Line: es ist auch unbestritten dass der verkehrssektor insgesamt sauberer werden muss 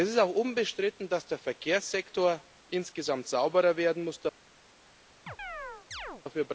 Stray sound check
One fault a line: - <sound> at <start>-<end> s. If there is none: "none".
- chirp at 5.3-6.2 s